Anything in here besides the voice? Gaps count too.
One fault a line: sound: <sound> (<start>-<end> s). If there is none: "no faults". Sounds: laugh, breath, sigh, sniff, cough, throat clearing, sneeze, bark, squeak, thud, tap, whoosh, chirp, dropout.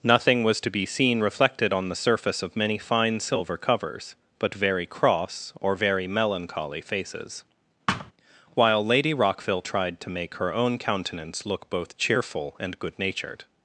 sound: thud (7.9-8.1 s)